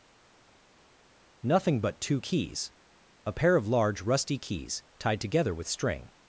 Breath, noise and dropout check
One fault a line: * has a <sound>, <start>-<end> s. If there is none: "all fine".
all fine